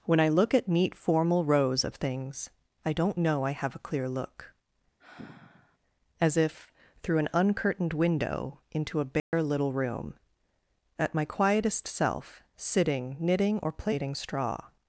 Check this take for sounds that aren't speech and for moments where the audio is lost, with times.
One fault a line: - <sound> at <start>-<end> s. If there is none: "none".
- sigh at 5.0-5.8 s
- dropout at 9.2-9.3 s